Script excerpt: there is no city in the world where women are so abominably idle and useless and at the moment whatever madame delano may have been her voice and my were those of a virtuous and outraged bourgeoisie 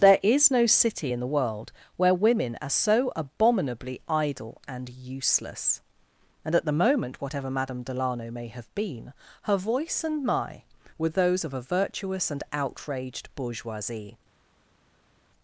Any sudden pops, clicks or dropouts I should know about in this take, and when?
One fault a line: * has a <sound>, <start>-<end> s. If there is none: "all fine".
all fine